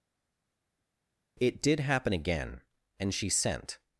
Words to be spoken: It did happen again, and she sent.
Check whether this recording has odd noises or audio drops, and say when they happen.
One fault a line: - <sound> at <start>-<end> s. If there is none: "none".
none